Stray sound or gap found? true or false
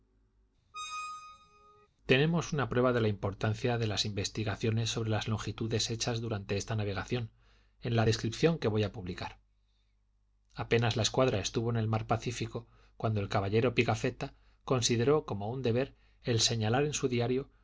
true